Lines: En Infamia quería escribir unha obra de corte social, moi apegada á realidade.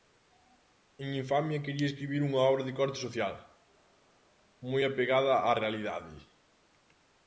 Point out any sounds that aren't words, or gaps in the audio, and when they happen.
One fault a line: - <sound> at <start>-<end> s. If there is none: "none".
none